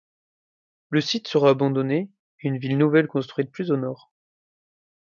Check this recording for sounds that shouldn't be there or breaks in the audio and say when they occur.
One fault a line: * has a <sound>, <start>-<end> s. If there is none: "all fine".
all fine